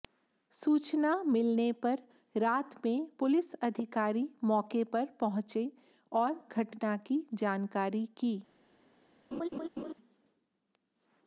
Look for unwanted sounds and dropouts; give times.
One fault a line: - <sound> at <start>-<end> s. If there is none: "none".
- laugh at 9.3-9.9 s